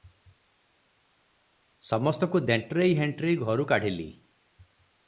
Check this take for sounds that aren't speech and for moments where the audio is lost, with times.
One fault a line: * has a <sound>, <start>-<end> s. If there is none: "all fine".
all fine